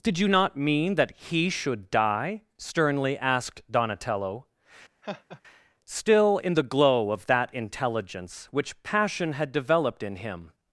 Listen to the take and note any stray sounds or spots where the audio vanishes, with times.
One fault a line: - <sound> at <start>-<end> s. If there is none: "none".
- laugh at 5.0-5.4 s